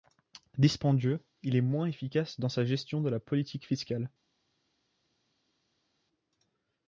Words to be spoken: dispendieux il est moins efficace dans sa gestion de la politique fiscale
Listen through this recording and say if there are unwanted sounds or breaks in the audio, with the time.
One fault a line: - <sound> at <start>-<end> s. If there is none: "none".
none